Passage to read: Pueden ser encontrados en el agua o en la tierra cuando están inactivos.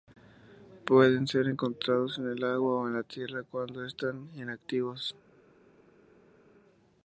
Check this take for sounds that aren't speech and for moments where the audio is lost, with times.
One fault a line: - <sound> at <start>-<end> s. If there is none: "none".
none